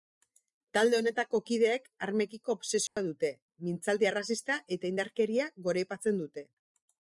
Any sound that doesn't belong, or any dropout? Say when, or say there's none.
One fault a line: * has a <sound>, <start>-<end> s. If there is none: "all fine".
* has a dropout, 2.9-3.0 s